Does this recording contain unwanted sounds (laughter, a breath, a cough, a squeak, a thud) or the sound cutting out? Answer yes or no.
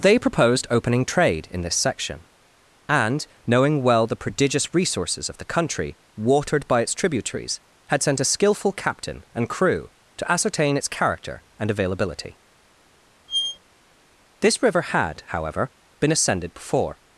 yes